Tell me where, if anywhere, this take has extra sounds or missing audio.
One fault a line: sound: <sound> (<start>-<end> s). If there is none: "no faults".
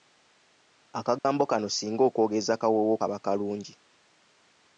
sound: dropout (1.2-1.2 s)